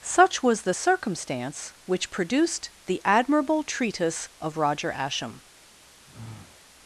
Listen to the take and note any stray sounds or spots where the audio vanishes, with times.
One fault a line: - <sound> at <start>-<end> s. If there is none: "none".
- sigh at 6.0-6.6 s